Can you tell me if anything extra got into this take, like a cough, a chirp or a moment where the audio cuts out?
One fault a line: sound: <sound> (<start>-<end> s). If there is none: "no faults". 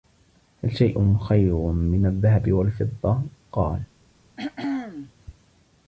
sound: throat clearing (4.4-5.1 s)